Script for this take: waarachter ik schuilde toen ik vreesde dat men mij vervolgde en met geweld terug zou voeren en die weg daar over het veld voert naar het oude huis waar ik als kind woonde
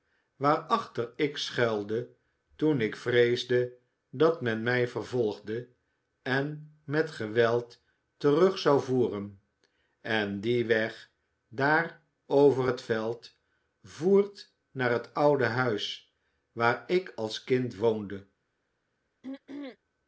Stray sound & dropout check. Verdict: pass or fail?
fail